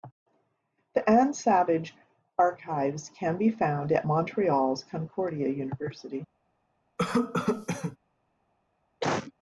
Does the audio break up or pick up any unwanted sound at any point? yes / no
yes